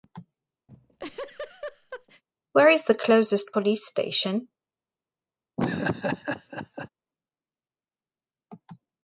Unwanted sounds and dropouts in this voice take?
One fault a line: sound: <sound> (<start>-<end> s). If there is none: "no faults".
sound: laugh (0.7-2.2 s)
sound: laugh (5.6-6.9 s)